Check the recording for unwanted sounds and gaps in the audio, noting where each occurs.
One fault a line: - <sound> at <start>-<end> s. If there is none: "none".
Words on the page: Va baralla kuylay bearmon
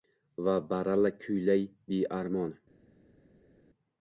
none